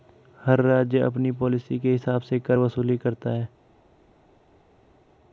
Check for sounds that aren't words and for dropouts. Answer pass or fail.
pass